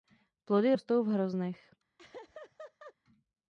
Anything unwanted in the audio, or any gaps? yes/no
yes